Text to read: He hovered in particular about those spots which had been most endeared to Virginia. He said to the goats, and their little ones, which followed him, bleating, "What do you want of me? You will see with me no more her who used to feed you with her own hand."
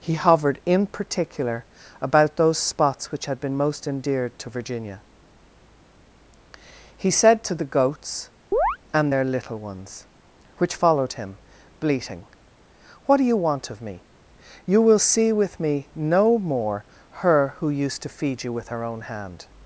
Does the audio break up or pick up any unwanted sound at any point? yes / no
yes